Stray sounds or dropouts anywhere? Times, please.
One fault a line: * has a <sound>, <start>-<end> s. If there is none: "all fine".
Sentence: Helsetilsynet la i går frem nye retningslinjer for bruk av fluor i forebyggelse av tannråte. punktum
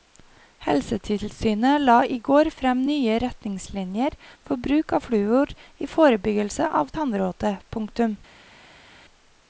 all fine